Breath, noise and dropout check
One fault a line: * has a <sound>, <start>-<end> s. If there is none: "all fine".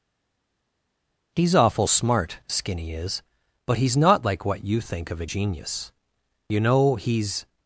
all fine